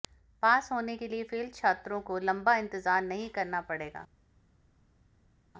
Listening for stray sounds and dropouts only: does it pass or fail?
pass